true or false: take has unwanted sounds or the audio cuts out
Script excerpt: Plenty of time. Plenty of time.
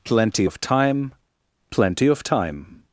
false